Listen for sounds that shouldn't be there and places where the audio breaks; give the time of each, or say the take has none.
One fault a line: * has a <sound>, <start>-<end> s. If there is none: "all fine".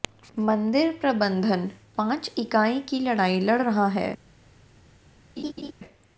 * has a laugh, 5.4-5.7 s